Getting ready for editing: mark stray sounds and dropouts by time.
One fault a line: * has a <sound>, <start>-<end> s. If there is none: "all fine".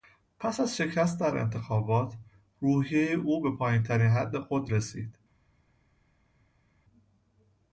all fine